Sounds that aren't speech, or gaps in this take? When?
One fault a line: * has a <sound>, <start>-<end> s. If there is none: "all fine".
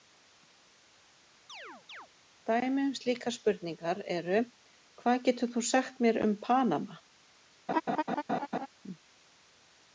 * has a chirp, 1.5-2.1 s
* has a laugh, 7.7-8.7 s